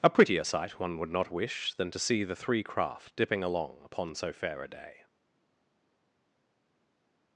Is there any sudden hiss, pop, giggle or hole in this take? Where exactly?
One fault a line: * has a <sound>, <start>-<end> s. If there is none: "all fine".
all fine